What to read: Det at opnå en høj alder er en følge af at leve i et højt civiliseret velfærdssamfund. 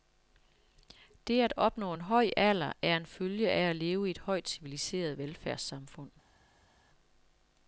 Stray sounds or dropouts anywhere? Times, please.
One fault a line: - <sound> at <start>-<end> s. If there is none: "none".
none